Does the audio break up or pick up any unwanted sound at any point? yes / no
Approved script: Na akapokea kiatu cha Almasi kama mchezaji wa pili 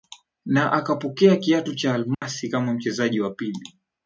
yes